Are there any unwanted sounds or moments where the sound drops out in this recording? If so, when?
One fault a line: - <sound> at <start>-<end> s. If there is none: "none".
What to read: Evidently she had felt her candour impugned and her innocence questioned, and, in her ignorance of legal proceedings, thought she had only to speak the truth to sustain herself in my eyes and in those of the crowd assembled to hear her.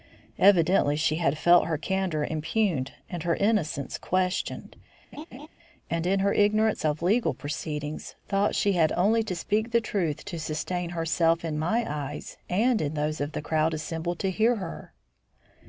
- laugh at 5.1-5.5 s